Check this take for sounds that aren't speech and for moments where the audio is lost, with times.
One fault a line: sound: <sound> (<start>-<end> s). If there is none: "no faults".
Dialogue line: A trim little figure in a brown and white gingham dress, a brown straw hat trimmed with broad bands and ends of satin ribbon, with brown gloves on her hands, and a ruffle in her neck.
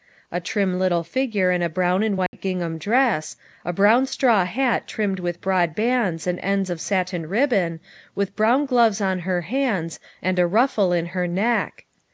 sound: dropout (2.3-2.3 s)